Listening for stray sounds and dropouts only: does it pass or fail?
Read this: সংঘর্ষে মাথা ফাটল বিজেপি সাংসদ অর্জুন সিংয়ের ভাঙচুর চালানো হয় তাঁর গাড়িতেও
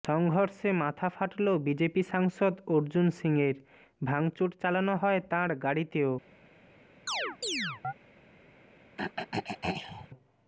fail